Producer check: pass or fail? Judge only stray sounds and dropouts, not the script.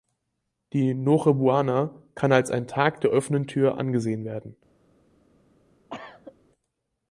fail